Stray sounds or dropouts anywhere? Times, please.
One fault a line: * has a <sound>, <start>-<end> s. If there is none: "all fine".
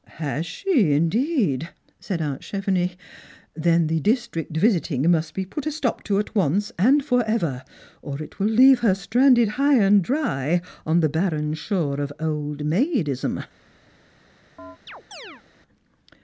* has a chirp, 14.6-15.4 s